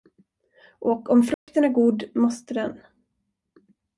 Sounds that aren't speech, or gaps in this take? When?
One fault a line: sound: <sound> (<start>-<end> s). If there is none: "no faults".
sound: dropout (1.3-1.5 s)